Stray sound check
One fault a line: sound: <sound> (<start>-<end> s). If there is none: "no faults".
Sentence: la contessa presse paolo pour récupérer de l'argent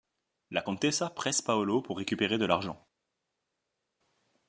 no faults